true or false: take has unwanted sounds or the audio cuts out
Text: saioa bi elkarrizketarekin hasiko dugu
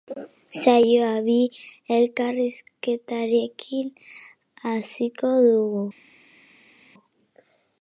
false